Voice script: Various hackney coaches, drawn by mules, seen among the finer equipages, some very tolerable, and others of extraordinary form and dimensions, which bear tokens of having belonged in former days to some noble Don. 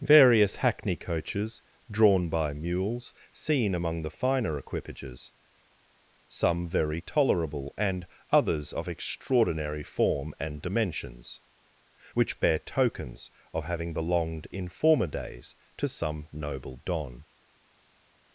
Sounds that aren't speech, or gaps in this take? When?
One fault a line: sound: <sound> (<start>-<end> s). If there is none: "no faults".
no faults